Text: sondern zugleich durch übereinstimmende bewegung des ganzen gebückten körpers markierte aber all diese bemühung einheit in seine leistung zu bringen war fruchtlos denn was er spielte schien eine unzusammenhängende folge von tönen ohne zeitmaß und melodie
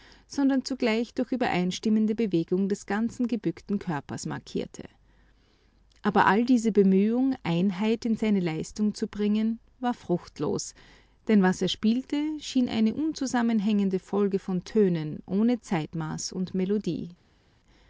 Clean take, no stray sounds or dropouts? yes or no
yes